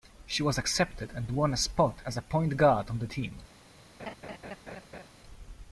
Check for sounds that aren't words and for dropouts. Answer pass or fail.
fail